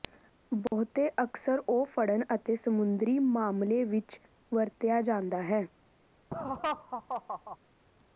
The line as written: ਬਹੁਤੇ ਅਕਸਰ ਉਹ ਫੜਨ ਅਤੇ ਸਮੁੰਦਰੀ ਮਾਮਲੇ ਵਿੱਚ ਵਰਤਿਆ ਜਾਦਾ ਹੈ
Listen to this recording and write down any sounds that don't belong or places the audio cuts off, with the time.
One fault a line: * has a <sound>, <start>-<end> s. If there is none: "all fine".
* has a dropout, 0.7-0.7 s
* has a laugh, 6.3-7.6 s